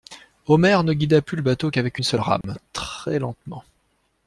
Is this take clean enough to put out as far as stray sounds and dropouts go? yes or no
no